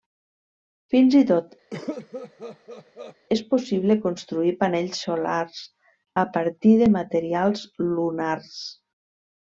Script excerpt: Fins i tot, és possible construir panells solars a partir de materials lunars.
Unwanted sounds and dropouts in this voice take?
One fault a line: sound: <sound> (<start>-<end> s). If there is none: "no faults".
sound: cough (1.7-3.2 s)